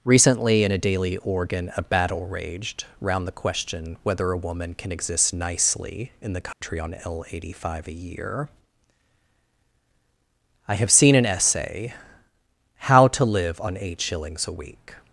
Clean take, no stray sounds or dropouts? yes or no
no